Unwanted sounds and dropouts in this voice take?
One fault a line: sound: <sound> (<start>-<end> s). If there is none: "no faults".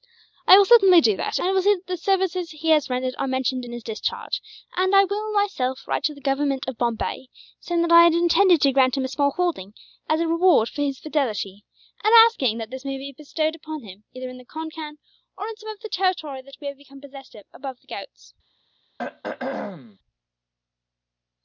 sound: throat clearing (19.0-20.0 s)